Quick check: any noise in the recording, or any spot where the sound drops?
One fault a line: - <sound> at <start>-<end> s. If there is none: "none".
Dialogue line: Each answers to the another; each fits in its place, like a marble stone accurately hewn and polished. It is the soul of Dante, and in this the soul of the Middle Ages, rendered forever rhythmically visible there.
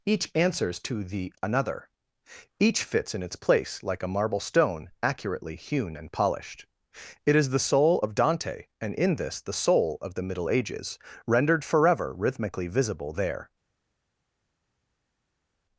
none